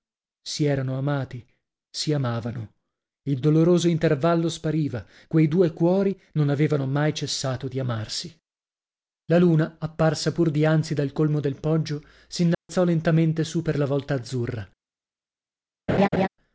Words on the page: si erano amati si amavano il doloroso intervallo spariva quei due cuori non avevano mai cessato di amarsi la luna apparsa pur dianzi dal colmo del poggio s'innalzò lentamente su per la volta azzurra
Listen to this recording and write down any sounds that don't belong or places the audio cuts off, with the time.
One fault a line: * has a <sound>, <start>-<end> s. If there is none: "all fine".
* has a dropout, 12.5-12.7 s
* has a laugh, 15.9-16.3 s